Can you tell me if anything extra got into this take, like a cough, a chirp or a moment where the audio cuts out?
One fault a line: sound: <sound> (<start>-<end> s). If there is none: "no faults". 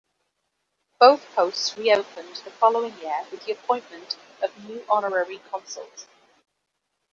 no faults